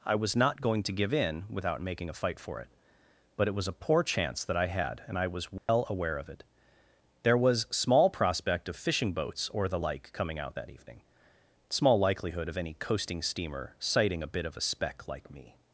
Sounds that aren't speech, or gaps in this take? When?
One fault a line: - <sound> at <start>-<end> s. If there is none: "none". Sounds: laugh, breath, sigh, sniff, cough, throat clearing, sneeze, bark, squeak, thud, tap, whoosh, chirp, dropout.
- dropout at 5.6-5.7 s